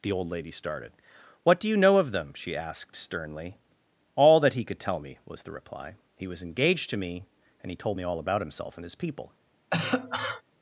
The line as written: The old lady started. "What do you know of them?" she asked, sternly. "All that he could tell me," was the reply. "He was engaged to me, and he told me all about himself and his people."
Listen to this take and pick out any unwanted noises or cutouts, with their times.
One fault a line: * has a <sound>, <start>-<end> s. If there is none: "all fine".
* has a cough, 9.7-10.4 s